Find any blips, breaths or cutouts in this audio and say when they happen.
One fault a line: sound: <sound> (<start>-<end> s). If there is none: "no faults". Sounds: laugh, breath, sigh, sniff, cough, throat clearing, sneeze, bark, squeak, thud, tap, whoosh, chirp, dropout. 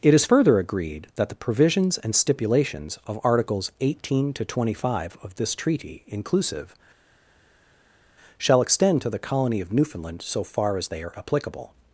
no faults